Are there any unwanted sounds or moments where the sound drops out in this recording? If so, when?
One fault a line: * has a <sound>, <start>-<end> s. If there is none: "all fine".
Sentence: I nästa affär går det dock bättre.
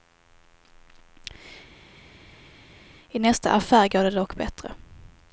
all fine